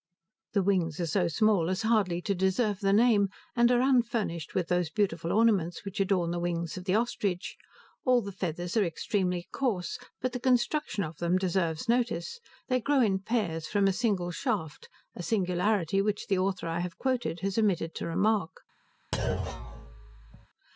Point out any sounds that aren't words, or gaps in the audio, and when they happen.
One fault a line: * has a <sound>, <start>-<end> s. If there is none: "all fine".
* has a thud, 19.1-20.5 s